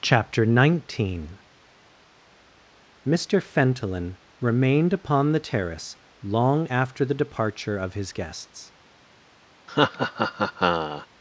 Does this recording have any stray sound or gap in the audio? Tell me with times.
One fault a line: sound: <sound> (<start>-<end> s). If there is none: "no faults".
sound: laugh (9.7-11.1 s)